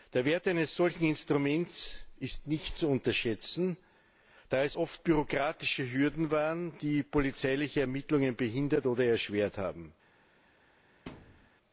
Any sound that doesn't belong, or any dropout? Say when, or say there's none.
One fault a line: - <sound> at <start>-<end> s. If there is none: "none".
- thud at 11.1-11.5 s